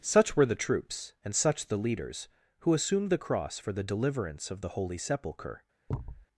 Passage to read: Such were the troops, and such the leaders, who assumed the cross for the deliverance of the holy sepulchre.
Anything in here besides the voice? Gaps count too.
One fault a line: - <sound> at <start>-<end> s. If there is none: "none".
- thud at 5.9-6.3 s